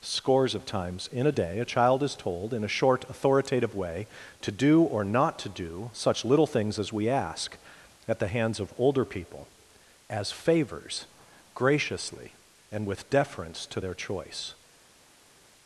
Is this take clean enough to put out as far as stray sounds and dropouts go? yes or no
yes